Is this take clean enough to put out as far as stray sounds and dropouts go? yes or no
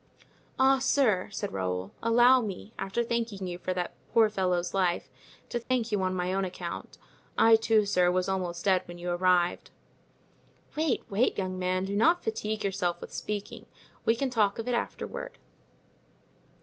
no